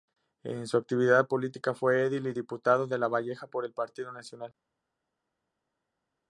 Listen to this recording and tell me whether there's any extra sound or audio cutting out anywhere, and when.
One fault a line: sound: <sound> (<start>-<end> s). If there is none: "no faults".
no faults